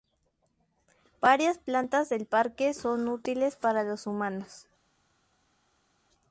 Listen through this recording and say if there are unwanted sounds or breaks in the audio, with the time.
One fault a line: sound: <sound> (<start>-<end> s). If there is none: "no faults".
no faults